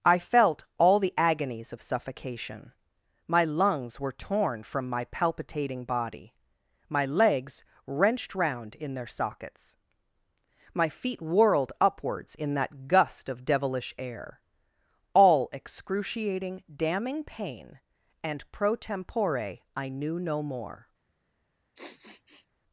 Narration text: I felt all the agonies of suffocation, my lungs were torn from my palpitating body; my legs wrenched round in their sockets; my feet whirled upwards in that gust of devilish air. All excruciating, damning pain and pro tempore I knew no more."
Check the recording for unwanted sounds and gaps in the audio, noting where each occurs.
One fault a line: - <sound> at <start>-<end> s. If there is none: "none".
- sniff at 21.7-22.5 s